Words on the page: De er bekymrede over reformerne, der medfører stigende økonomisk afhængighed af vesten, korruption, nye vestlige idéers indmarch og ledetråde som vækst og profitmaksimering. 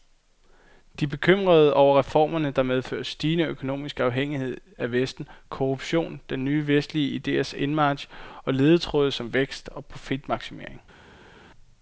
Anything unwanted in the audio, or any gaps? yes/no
no